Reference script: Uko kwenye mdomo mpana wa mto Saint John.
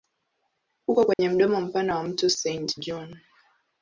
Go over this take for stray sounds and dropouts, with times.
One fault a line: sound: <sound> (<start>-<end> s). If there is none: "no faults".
sound: dropout (1.1-1.2 s)